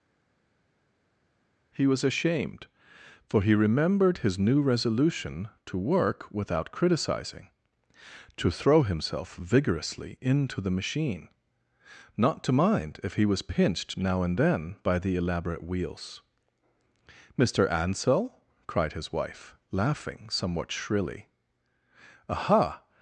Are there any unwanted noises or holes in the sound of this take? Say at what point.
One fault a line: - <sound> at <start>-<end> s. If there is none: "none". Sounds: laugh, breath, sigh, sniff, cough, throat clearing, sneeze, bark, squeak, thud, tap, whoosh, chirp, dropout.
none